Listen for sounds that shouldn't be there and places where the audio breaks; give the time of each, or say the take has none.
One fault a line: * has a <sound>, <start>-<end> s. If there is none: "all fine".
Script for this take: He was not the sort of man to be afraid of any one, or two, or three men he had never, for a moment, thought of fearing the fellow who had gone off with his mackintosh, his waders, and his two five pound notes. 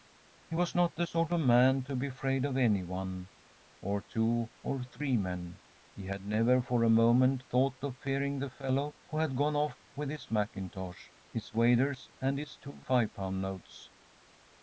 all fine